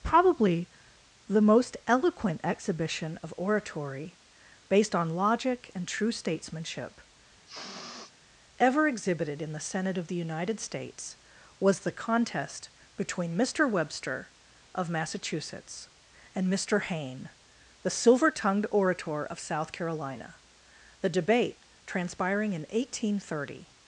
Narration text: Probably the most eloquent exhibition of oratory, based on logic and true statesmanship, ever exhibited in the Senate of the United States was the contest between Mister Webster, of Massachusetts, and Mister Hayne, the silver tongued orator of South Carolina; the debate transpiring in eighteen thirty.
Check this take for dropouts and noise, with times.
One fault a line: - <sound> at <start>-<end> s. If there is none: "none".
- sniff at 7.5-8.1 s